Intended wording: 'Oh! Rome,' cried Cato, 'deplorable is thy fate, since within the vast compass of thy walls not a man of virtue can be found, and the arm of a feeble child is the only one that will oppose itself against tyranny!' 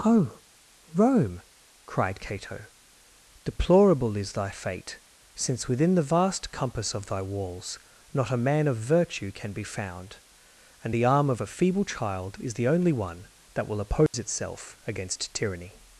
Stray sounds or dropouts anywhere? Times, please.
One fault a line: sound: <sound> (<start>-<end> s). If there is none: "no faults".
sound: dropout (14.1-14.1 s)